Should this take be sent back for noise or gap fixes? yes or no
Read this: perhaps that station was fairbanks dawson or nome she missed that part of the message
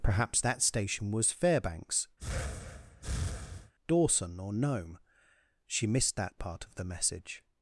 yes